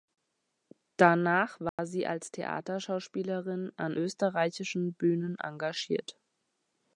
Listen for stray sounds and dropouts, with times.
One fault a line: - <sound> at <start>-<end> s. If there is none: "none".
- dropout at 1.7-1.8 s